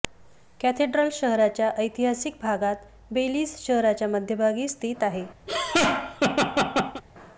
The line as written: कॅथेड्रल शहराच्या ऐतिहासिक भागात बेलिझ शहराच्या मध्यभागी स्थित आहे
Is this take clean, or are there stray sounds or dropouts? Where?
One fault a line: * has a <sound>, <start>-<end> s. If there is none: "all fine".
* has a laugh, 5.5-7.0 s